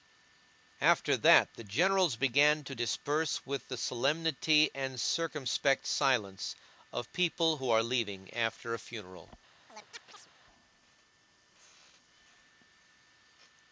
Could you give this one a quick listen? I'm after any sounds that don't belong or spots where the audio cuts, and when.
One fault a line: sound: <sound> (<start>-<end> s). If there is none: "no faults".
sound: chirp (9.7-10.3 s)